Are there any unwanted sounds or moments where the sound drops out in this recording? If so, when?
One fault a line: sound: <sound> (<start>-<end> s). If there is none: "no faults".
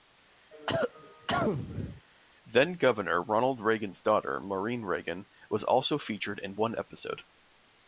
sound: cough (0.5-2.0 s)